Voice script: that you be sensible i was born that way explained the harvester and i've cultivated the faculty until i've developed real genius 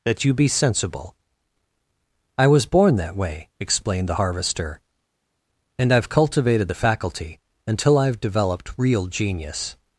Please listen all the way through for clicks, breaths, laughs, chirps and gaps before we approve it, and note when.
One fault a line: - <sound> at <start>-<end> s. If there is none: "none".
none